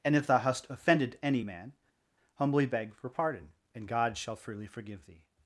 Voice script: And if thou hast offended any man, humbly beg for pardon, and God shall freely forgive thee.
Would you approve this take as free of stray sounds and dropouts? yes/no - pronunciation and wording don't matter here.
yes